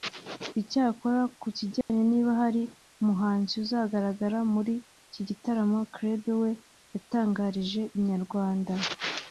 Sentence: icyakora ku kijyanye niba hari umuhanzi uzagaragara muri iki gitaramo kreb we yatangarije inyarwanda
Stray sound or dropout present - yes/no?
yes